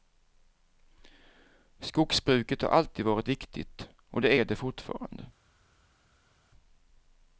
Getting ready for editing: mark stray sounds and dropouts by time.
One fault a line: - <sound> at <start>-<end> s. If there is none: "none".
none